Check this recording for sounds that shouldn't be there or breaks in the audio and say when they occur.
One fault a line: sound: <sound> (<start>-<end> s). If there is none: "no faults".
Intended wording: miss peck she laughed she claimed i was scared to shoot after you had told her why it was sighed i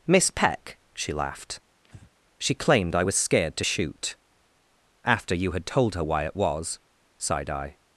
sound: breath (1.8-2.1 s)